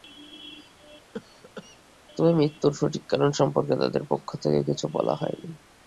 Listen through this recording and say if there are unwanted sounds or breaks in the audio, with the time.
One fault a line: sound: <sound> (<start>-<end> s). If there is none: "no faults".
sound: cough (1.1-1.8 s)